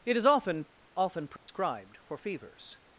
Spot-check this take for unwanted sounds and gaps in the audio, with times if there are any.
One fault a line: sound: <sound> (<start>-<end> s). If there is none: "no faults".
sound: dropout (1.4-1.5 s)